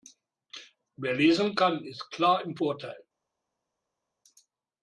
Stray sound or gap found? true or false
false